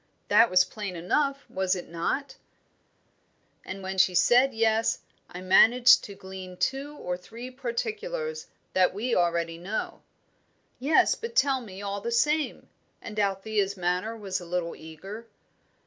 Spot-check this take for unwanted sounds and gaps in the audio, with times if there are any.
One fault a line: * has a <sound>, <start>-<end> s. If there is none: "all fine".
all fine